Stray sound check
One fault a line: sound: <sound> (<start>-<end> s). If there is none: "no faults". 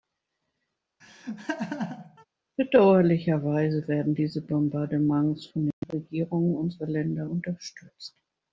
sound: laugh (1.0-2.3 s)